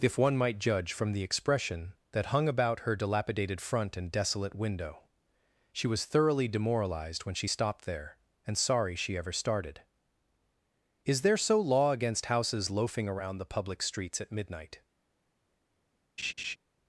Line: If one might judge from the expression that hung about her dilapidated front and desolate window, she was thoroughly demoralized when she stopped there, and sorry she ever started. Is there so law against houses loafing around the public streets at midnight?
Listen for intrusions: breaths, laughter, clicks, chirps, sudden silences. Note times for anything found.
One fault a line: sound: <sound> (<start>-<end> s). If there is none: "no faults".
sound: laugh (16.2-16.6 s)